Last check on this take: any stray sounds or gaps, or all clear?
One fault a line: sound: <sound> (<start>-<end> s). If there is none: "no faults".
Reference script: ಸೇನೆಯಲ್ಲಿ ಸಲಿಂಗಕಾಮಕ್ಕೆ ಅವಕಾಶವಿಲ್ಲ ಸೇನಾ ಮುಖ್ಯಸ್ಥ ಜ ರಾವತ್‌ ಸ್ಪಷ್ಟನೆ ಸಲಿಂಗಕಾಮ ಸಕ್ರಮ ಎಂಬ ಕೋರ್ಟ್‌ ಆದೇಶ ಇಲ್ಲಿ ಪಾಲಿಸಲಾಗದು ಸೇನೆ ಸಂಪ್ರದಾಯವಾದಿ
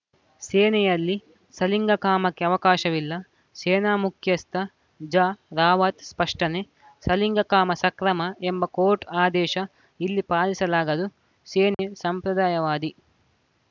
sound: dropout (11.7-11.8 s)